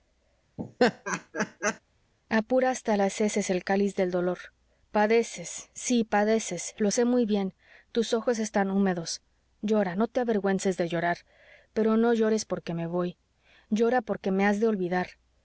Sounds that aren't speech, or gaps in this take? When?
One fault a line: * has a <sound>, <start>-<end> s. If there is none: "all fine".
* has a laugh, 0.6-1.8 s